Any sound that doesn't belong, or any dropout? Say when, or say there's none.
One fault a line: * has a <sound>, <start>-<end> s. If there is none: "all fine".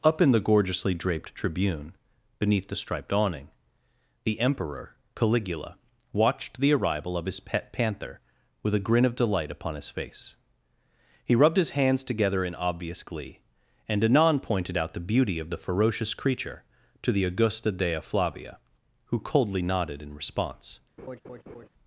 * has a laugh, 21.0-21.7 s